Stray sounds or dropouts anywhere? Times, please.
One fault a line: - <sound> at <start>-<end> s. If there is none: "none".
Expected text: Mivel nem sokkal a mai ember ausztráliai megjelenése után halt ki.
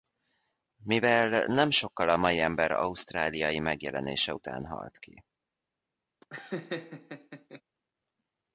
- laugh at 6.2-7.6 s